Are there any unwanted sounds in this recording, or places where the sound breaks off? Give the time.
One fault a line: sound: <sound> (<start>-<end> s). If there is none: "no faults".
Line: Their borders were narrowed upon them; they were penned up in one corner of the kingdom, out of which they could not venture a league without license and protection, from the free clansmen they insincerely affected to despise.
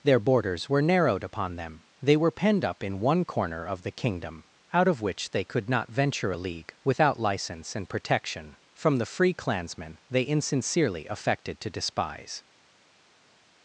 no faults